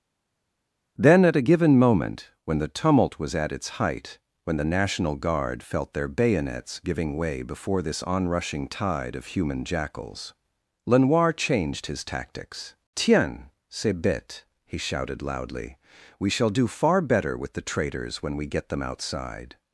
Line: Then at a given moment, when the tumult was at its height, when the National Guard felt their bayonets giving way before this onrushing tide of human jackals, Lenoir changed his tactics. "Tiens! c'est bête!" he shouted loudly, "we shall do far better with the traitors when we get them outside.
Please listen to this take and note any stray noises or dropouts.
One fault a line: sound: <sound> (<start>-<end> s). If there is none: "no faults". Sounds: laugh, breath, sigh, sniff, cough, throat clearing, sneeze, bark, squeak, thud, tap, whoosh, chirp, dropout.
no faults